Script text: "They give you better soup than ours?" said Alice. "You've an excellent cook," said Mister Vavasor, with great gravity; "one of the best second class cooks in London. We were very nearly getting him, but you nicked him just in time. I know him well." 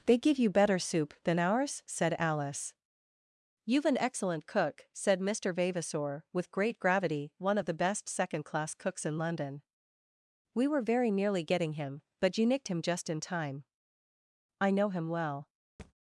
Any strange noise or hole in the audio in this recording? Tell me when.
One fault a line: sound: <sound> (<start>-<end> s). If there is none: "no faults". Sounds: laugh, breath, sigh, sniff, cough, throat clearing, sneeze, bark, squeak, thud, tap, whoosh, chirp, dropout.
sound: thud (15.8-15.9 s)